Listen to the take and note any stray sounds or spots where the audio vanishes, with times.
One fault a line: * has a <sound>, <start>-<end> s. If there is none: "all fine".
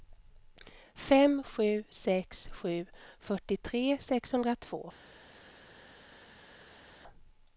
all fine